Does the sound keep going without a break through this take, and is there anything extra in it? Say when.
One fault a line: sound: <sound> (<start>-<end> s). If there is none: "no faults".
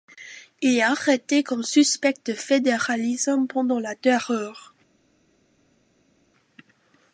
no faults